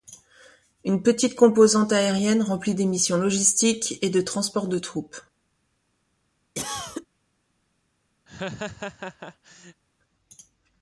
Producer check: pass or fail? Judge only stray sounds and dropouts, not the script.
fail